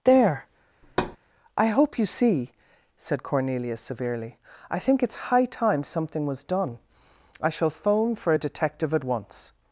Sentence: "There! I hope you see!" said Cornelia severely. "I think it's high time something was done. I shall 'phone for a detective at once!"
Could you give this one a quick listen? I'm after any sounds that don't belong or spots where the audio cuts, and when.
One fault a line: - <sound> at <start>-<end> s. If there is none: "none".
- thud at 0.8-1.2 s